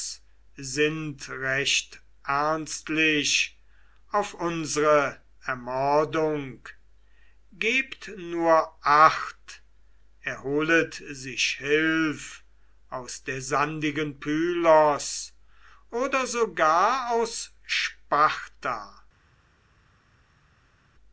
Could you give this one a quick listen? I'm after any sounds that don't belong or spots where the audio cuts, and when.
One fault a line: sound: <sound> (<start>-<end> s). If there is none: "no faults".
no faults